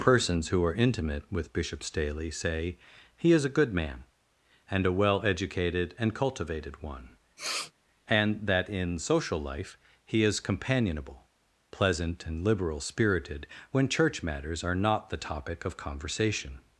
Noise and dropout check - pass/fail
fail